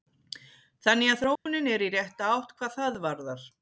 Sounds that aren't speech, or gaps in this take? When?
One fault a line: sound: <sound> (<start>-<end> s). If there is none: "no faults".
sound: dropout (1.4-1.5 s)